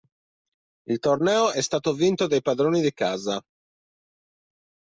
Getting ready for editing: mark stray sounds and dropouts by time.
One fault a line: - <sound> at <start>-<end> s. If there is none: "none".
none